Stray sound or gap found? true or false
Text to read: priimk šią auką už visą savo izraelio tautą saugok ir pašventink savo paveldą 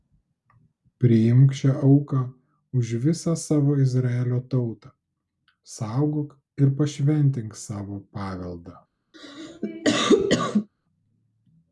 true